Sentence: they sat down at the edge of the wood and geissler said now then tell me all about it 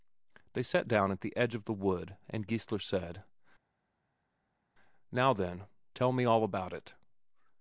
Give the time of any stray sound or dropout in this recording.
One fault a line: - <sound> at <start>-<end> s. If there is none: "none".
none